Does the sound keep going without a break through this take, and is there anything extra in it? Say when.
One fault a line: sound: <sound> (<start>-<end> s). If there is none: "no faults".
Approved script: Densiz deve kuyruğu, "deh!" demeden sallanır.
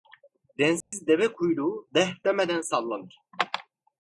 sound: dropout (0.8-0.9 s)